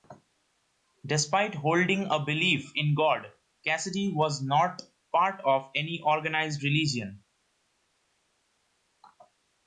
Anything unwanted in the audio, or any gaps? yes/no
no